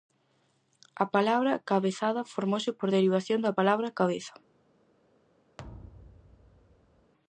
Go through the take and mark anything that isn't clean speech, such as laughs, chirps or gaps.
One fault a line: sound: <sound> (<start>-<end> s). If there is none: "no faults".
sound: thud (5.6-7.1 s)